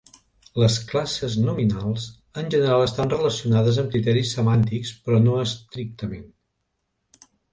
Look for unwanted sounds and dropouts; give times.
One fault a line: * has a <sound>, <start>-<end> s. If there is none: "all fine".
all fine